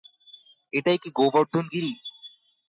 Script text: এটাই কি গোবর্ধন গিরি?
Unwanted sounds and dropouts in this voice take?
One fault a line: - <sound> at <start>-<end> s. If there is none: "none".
none